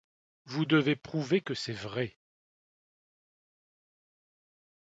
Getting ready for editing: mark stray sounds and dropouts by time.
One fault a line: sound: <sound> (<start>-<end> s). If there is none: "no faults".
no faults